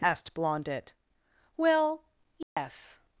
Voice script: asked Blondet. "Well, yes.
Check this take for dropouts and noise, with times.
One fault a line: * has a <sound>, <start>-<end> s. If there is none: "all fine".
* has a dropout, 2.4-2.6 s